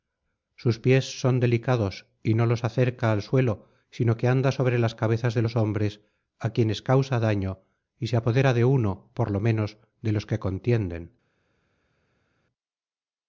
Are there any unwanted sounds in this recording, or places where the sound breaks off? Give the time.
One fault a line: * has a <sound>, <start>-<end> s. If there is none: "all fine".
all fine